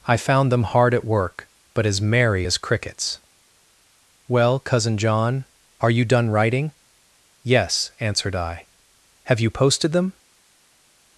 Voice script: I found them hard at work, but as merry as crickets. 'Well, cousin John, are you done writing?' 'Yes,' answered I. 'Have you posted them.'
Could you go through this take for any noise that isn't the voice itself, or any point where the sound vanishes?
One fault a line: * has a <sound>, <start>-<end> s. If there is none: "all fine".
all fine